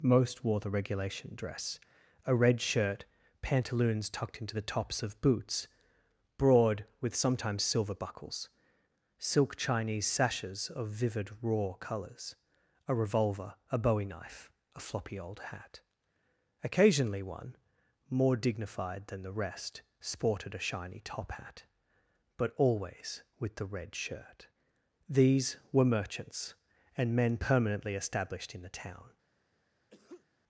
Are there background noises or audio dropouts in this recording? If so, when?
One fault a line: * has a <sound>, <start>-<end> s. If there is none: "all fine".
* has a sneeze, 29.9-30.3 s